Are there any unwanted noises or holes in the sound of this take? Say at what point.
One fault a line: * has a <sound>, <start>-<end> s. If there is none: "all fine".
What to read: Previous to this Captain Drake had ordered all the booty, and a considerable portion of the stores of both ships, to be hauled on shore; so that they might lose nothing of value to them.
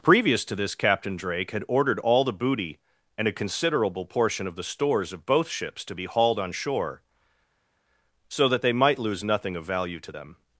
all fine